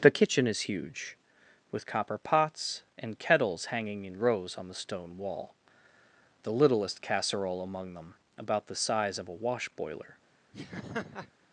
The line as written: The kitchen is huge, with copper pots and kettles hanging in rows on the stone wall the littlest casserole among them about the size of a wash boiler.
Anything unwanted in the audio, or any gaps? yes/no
yes